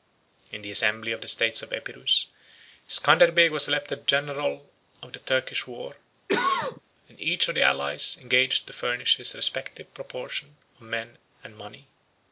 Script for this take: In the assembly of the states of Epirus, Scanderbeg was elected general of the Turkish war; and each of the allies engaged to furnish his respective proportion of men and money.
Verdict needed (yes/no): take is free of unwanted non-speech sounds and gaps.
no